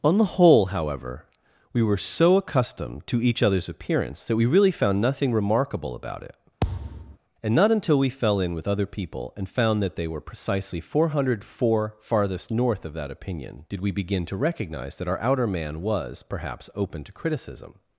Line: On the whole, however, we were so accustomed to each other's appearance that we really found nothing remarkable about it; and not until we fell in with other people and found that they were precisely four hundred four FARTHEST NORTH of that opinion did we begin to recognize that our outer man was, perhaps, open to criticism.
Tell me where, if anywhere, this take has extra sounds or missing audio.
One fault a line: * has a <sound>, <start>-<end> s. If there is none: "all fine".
* has a thud, 6.6-7.2 s